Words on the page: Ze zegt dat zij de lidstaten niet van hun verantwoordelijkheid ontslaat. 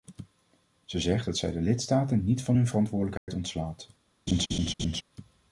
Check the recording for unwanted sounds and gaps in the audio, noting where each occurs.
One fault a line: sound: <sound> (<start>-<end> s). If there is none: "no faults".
sound: dropout (3.2-3.3 s)
sound: laugh (4.3-5.0 s)